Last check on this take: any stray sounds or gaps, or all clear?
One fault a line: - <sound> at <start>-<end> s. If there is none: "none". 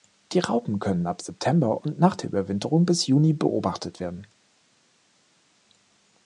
none